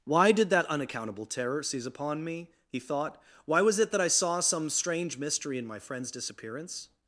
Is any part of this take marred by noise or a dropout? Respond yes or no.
no